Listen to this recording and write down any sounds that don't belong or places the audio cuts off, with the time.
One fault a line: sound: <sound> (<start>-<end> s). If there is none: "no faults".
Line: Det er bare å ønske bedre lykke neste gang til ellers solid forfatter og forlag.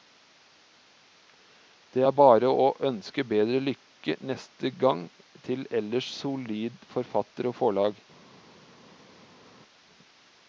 no faults